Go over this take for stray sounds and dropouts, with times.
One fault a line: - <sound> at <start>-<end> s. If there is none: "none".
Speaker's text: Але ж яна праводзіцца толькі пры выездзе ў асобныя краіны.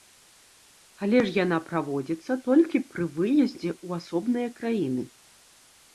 none